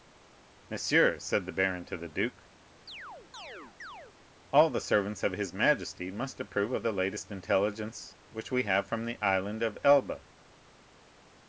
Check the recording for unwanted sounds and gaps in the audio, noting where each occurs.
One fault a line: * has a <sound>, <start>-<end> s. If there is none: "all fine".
* has a chirp, 2.9-4.2 s